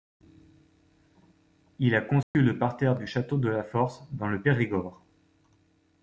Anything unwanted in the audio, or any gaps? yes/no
yes